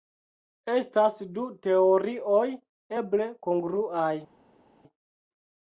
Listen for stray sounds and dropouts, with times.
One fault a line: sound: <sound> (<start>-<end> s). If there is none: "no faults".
no faults